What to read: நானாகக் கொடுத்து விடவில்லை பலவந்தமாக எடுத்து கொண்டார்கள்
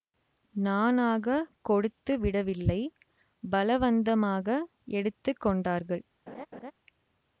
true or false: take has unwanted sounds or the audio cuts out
true